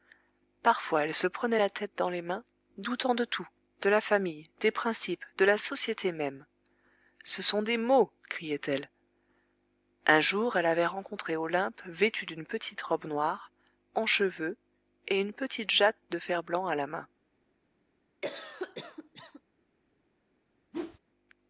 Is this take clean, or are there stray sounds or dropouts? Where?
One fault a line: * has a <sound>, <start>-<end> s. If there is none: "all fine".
* has a cough, 18.2-19.4 s
* has a whoosh, 20.7-21.0 s